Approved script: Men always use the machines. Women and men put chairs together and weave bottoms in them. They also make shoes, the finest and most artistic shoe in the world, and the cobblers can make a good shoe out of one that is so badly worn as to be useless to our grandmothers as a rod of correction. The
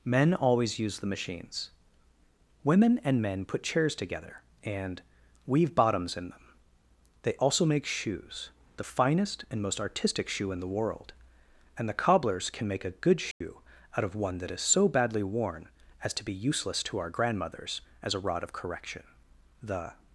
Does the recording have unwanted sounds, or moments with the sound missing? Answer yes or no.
yes